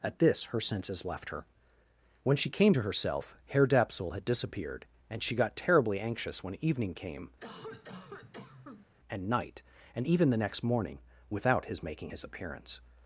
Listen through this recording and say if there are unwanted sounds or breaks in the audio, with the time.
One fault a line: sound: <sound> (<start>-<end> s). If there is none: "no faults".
sound: cough (7.4-8.9 s)